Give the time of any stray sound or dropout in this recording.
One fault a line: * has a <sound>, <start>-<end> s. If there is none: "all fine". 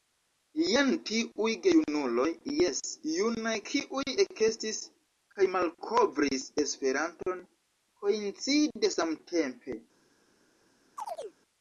* has a chirp, 11.0-11.4 s